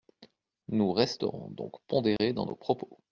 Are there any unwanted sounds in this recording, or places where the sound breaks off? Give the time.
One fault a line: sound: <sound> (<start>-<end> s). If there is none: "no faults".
sound: dropout (2.2-2.2 s)